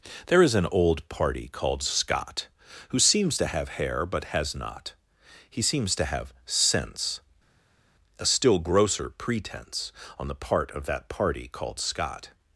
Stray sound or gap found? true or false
false